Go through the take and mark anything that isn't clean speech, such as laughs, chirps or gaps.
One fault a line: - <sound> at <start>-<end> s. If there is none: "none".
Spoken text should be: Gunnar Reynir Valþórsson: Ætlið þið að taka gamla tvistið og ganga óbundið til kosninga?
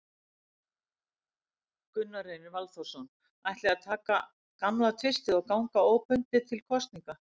none